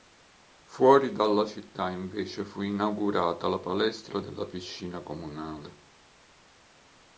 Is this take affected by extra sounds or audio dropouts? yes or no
no